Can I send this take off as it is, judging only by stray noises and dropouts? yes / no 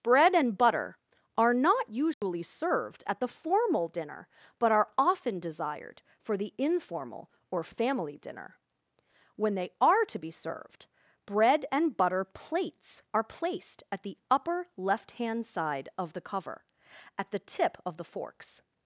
no